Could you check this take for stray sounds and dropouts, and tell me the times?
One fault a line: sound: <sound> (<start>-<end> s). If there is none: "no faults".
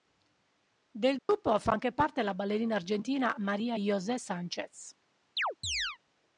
sound: dropout (1.2-1.3 s)
sound: chirp (5.4-6.0 s)